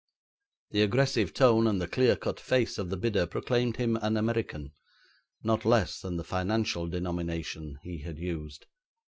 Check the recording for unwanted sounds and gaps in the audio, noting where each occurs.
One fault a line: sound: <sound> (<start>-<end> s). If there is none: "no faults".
no faults